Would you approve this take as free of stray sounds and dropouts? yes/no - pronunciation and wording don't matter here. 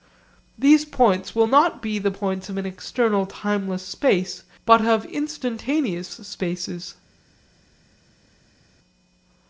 yes